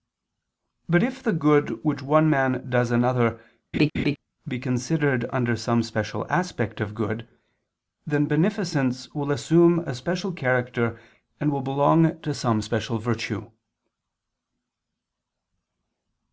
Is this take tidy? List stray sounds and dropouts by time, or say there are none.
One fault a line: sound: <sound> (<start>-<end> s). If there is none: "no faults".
sound: laugh (3.7-4.2 s)